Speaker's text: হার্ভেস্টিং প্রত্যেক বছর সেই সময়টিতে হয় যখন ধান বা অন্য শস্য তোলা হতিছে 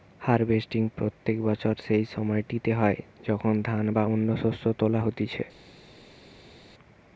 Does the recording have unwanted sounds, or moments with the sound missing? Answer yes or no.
no